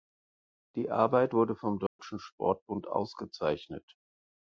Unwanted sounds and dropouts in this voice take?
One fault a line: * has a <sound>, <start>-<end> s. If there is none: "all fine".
* has a dropout, 1.9-2.0 s